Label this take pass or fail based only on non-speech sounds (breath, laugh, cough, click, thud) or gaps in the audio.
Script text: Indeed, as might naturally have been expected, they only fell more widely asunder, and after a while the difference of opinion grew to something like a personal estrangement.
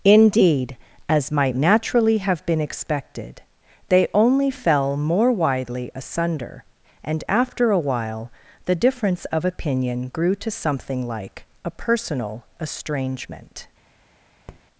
fail